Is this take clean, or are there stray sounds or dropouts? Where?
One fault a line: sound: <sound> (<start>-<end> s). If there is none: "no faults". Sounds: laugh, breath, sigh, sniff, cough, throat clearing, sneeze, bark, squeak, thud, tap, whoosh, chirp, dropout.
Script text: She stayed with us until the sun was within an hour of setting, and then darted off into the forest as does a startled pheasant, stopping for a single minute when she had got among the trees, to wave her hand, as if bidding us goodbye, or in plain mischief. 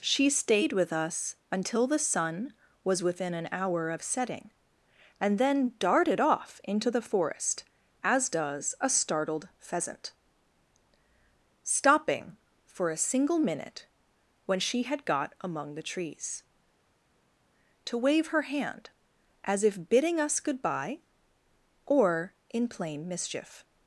no faults